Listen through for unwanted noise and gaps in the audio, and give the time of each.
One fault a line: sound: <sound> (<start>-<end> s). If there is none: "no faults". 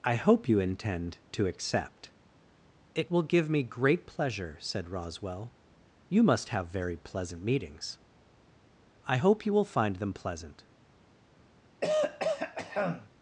sound: throat clearing (11.8-13.1 s)